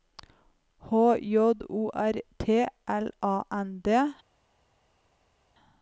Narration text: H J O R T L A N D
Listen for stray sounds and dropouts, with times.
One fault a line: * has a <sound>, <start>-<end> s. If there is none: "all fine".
all fine